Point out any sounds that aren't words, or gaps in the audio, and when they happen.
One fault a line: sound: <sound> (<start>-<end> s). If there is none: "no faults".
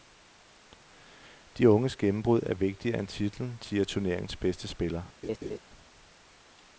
sound: laugh (5.2-5.6 s)